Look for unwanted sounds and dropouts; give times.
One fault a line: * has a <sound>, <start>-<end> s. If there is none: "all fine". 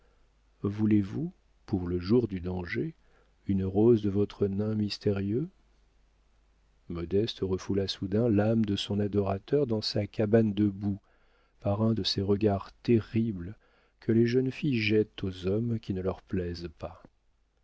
all fine